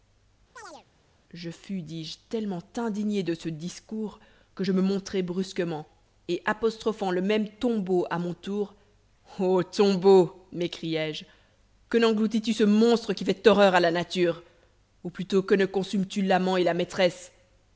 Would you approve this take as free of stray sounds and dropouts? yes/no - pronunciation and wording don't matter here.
no